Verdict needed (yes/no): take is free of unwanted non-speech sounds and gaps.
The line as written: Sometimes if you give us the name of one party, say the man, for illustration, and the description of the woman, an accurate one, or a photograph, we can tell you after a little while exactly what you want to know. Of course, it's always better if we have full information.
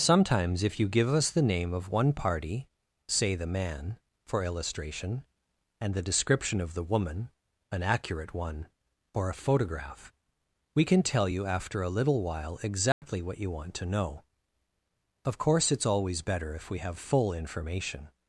no